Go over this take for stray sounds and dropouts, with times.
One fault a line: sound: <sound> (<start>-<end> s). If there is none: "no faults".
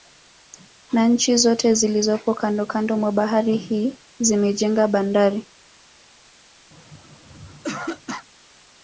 sound: throat clearing (6.7-8.3 s)